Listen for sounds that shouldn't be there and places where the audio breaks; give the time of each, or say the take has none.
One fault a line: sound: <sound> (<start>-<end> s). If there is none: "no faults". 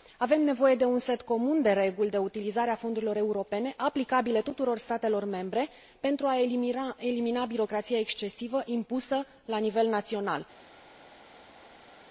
no faults